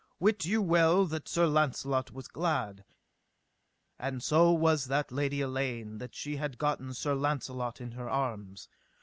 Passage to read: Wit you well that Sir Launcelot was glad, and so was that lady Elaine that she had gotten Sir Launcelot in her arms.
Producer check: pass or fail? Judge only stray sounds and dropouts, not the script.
pass